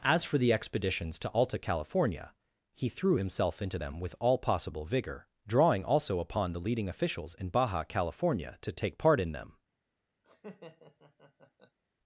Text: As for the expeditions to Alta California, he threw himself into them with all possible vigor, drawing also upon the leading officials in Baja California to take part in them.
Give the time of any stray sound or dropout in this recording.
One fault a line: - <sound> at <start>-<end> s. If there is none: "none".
- laugh at 10.2-11.8 s